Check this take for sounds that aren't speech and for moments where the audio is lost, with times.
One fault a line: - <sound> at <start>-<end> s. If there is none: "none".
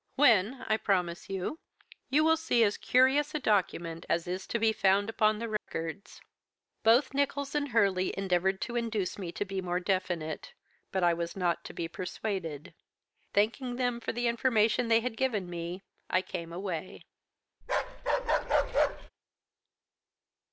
- dropout at 5.6-5.7 s
- bark at 17.6-19.1 s